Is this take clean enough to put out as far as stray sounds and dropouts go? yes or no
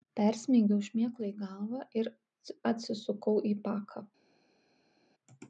yes